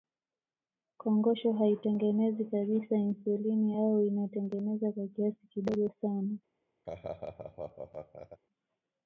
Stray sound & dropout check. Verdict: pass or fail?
fail